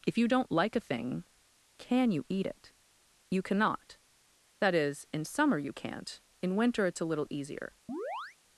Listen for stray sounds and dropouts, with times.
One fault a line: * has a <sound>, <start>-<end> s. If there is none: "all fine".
* has a chirp, 7.9-8.4 s